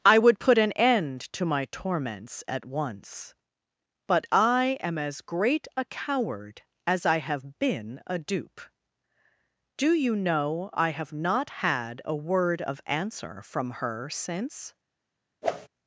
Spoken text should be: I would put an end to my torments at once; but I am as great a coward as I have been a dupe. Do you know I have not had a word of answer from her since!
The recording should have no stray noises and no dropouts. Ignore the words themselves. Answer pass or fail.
fail